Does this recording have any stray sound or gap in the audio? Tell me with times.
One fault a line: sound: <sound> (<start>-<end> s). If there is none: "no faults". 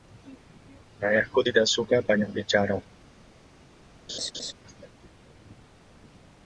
sound: laugh (4.1-4.5 s)